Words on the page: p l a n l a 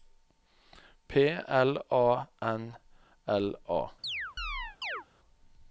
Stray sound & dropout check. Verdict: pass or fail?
fail